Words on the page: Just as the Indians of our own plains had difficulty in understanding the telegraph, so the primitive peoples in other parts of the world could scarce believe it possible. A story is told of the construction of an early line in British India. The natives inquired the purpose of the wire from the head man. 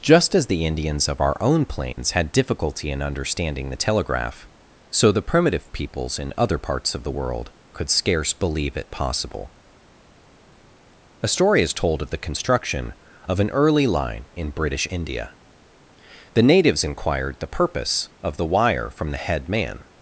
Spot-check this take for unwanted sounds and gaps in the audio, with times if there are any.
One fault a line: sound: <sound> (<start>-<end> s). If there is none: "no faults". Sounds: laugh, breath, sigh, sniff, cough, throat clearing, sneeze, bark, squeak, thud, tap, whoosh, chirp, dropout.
sound: dropout (1.9-2.0 s)